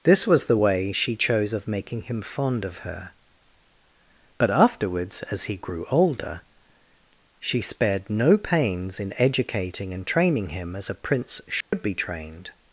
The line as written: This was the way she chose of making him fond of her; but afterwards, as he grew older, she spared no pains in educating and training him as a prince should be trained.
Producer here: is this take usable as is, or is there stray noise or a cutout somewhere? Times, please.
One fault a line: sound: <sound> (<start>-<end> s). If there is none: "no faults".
sound: dropout (11.6-11.7 s)